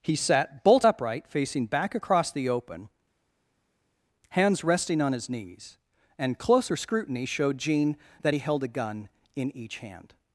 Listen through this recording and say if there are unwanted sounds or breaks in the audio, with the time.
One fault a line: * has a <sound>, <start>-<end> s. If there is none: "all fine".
all fine